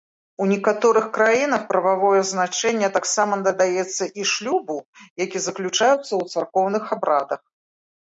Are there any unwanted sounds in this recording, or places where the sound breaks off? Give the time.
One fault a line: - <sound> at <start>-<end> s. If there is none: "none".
none